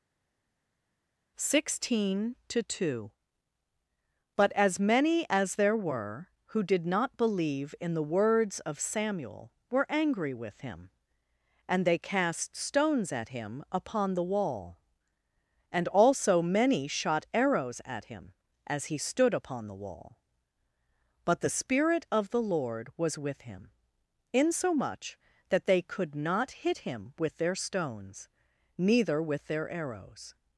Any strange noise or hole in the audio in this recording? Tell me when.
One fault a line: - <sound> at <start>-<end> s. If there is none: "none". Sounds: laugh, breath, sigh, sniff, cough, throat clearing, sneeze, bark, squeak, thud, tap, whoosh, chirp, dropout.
none